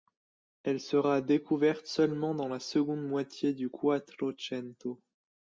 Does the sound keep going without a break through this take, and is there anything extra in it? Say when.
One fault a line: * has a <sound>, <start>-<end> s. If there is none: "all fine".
all fine